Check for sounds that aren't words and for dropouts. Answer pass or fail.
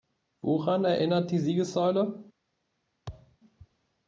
fail